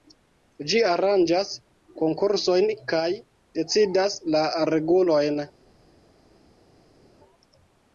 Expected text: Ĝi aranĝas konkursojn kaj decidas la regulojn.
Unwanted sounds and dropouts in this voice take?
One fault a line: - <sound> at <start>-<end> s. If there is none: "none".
none